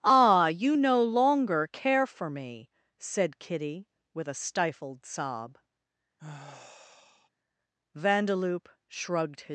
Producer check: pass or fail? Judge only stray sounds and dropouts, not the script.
fail